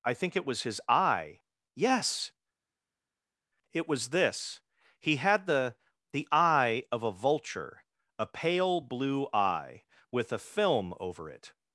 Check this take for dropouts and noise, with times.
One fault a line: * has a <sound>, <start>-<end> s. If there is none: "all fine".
all fine